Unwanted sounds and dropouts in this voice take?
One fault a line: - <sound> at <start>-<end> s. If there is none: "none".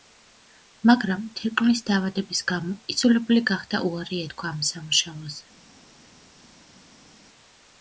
none